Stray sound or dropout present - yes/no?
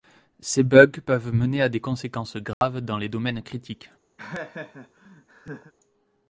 yes